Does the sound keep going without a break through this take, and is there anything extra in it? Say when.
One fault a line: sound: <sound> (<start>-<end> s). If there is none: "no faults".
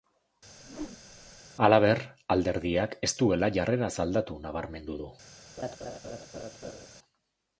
sound: whoosh (0.6-1.4 s)
sound: laugh (5.6-6.9 s)